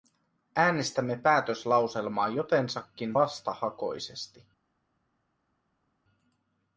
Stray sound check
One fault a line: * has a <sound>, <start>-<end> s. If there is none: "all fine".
all fine